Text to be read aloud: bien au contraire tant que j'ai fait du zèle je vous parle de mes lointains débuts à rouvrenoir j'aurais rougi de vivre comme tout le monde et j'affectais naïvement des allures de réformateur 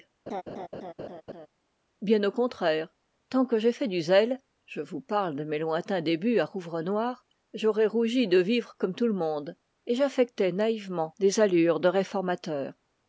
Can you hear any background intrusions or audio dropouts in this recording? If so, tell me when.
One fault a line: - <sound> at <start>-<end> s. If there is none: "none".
- laugh at 0.3-1.5 s